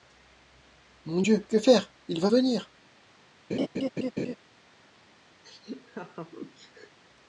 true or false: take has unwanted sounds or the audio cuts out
true